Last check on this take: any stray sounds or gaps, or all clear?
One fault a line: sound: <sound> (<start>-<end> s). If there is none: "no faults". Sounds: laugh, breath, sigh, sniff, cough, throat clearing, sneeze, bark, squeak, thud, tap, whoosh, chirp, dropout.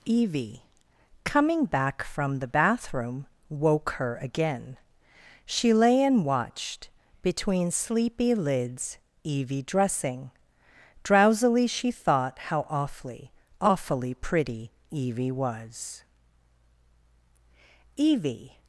no faults